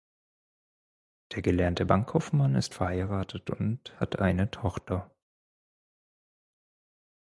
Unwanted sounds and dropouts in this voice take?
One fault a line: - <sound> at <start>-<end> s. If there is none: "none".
none